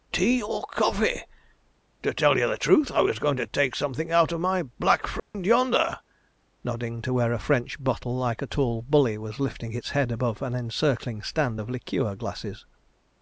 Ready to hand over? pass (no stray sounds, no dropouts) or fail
fail